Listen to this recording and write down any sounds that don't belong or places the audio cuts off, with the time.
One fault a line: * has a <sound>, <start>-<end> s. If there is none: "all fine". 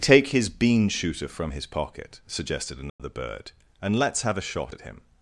* has a dropout, 2.9-3.0 s